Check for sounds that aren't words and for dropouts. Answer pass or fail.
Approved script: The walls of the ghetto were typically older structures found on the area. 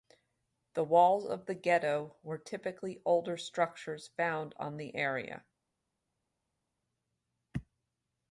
pass